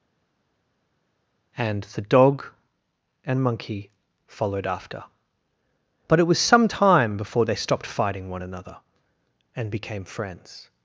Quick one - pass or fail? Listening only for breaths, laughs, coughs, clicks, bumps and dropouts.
pass